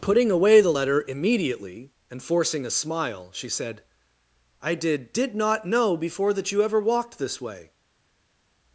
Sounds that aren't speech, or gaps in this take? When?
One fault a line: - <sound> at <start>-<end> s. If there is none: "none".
none